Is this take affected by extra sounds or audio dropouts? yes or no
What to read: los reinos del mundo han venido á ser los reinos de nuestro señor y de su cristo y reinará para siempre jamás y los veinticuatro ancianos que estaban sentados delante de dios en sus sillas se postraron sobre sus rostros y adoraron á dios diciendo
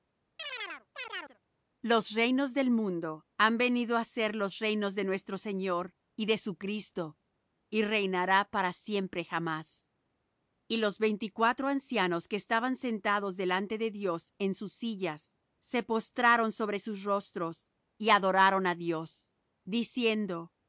yes